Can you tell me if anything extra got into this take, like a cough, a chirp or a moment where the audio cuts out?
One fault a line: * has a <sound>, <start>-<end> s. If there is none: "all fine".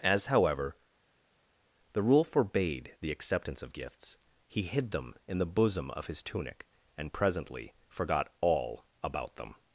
all fine